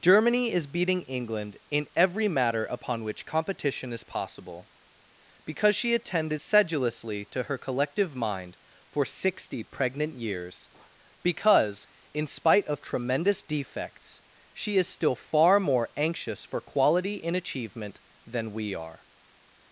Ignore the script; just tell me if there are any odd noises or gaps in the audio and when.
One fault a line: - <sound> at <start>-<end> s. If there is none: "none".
none